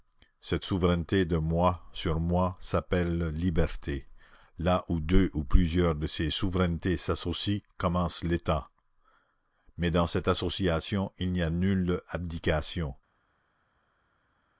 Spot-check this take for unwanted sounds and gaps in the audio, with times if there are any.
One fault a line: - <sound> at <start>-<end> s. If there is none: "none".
none